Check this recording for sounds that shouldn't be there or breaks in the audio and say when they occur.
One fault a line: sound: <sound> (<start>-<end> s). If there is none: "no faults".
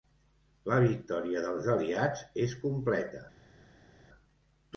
no faults